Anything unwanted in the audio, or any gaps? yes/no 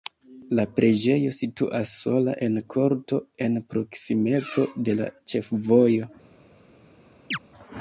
yes